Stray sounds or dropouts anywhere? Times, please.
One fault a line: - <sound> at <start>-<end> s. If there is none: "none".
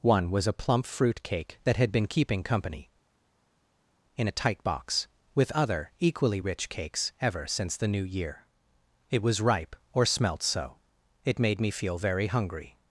none